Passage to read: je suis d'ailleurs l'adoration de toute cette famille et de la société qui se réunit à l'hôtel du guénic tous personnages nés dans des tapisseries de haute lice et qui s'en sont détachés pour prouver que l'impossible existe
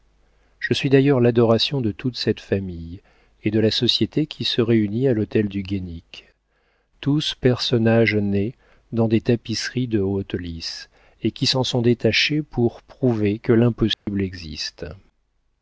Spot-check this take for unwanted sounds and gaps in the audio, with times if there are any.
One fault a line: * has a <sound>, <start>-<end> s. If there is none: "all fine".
* has a dropout, 13.9-14.1 s